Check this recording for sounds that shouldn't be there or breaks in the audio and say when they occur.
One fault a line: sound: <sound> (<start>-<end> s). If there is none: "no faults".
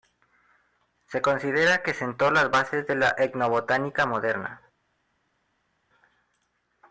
no faults